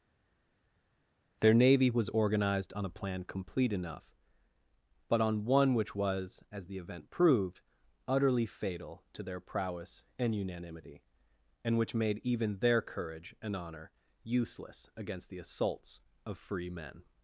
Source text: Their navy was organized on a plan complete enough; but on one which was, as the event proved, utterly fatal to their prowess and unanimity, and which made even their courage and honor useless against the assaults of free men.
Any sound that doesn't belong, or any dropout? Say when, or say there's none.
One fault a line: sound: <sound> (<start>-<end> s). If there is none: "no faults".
no faults